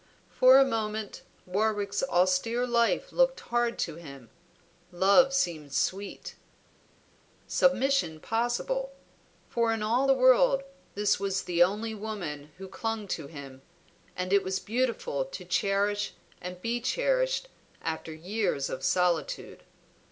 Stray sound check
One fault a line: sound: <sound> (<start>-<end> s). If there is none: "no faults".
no faults